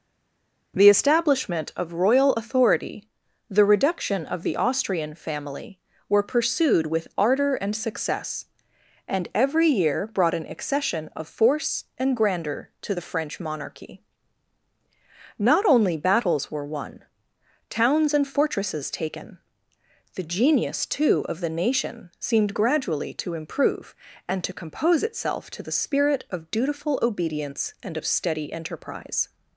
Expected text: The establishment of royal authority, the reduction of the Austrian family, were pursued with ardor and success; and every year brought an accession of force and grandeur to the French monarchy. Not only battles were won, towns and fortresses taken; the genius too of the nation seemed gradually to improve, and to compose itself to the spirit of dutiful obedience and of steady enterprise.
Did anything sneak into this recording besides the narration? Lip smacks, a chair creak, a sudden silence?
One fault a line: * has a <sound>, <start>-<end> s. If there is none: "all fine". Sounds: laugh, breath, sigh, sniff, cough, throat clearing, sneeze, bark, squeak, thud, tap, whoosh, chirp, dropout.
all fine